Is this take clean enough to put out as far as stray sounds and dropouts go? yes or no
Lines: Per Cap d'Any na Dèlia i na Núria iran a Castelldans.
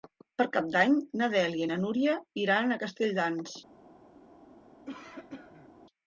no